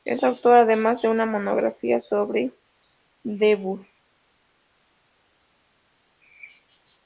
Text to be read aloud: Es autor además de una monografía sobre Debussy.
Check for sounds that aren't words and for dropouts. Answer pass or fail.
pass